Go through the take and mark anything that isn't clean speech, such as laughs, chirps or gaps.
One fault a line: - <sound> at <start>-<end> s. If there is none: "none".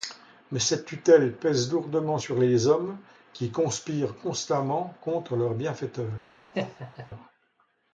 - laugh at 6.5-7.1 s